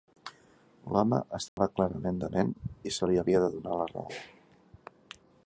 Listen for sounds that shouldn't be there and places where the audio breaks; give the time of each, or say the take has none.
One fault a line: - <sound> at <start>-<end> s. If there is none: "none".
- dropout at 1.5-1.6 s